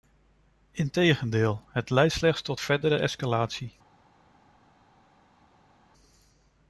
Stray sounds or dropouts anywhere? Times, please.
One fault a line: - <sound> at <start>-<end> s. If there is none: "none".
none